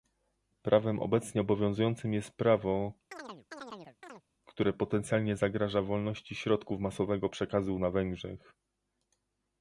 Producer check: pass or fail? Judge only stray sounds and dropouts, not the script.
fail